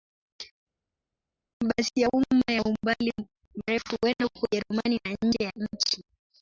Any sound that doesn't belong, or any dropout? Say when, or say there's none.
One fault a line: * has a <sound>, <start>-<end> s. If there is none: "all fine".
all fine